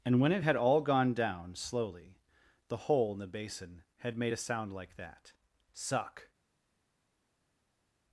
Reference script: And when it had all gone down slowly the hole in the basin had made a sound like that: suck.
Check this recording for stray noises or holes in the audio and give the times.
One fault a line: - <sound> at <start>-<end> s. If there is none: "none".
none